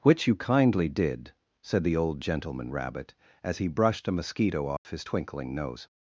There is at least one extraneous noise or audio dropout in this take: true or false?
true